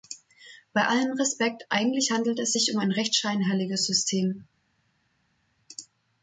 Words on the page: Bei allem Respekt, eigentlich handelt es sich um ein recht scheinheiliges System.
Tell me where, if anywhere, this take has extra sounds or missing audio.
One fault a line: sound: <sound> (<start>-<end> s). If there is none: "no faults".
no faults